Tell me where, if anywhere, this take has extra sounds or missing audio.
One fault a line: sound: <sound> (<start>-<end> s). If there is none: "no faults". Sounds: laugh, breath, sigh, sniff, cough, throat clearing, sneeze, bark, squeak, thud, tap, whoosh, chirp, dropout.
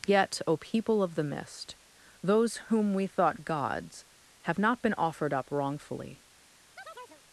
sound: chirp (6.8-7.2 s)